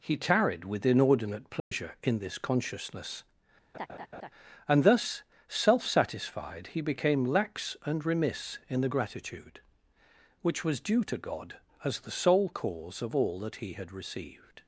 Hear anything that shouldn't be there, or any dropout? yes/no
yes